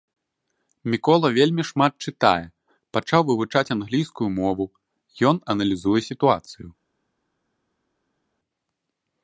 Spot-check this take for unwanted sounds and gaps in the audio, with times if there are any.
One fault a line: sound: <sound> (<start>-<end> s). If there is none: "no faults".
no faults